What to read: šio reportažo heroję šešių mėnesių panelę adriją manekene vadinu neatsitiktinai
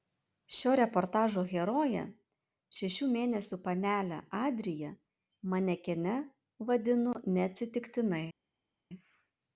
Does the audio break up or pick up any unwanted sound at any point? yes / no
no